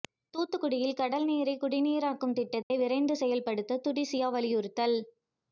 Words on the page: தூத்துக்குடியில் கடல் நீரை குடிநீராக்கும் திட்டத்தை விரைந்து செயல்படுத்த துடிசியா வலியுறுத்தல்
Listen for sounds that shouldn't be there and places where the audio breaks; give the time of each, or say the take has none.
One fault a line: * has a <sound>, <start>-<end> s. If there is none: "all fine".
* has a dropout, 2.6-2.7 s